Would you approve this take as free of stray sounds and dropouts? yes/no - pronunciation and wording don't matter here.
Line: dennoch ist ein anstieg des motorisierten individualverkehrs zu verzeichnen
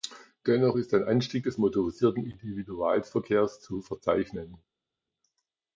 yes